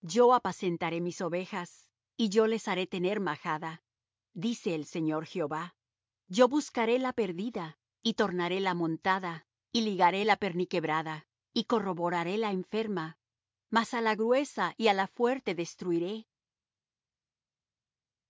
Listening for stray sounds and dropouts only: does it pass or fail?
pass